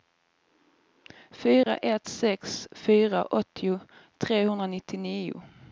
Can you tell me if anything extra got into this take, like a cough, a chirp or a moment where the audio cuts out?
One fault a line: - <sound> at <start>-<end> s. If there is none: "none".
- dropout at 1.6-1.7 s